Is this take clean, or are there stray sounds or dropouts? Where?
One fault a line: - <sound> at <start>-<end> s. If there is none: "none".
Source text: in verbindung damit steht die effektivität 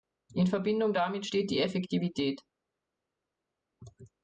none